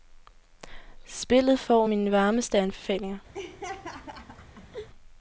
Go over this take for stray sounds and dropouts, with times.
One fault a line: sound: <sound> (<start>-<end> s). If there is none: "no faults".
sound: laugh (3.3-4.9 s)